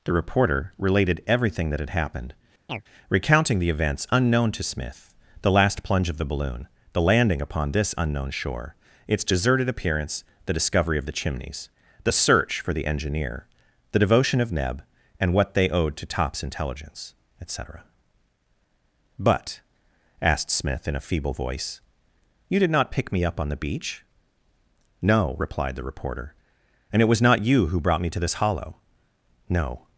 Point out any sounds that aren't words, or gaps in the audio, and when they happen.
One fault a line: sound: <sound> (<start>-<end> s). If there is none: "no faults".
sound: chirp (2.7-2.8 s)